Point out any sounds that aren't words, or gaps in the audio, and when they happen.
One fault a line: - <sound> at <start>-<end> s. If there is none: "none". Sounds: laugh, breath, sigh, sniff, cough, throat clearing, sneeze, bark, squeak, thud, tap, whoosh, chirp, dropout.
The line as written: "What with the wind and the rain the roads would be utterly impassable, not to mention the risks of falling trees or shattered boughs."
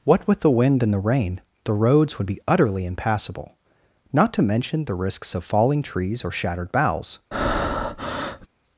- breath at 7.3-8.5 s